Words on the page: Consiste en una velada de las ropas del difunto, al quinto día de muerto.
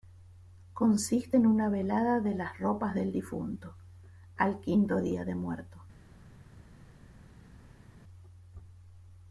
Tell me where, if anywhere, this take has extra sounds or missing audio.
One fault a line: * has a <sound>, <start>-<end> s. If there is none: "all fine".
all fine